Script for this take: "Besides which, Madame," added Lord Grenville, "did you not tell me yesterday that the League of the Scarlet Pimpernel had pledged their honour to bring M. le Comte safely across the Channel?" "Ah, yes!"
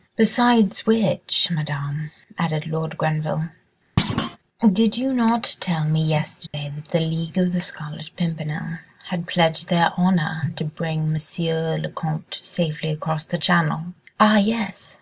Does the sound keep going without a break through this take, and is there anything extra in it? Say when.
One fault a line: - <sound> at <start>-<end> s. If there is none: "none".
- thud at 4.0-4.4 s
- dropout at 6.5-6.5 s